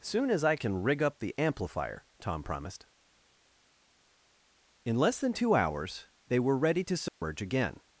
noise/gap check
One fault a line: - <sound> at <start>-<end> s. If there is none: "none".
- dropout at 7.1-7.2 s